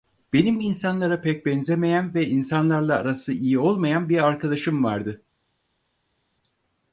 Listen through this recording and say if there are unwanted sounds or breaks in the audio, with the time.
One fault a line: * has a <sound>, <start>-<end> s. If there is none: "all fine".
all fine